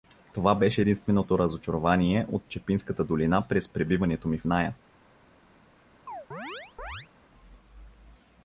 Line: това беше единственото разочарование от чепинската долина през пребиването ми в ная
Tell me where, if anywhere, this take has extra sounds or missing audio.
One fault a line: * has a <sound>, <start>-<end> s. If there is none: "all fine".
* has a chirp, 6.1-7.1 s